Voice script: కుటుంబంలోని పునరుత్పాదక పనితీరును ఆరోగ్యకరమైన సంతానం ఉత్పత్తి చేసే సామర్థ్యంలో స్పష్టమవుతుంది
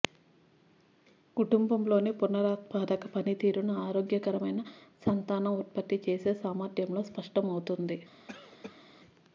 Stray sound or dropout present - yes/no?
yes